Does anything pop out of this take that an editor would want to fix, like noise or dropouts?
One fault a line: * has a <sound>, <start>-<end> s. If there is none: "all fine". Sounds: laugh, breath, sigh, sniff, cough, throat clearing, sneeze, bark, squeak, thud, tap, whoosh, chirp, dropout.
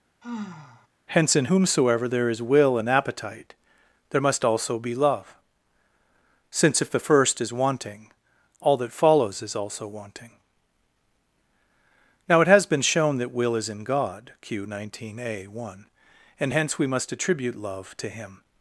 * has a sigh, 0.2-0.9 s